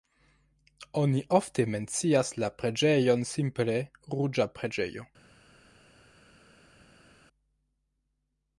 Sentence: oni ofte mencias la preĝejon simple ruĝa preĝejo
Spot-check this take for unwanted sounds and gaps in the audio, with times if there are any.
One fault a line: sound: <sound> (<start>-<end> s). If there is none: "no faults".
no faults